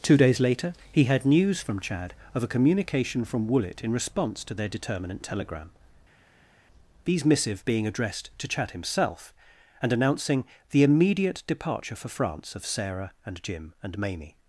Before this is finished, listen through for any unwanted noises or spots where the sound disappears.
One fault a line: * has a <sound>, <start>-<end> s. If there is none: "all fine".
all fine